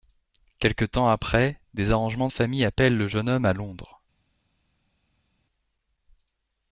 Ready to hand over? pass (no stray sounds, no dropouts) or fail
pass